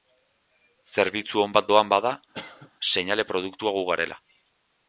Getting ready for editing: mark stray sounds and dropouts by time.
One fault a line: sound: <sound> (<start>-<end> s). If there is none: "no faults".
sound: cough (2.3-2.7 s)